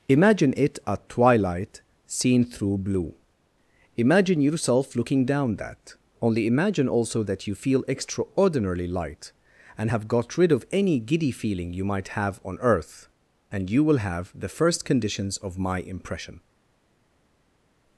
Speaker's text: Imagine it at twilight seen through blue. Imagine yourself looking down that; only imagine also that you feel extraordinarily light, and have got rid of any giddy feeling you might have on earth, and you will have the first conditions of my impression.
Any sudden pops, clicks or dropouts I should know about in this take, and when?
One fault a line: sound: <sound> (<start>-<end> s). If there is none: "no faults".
no faults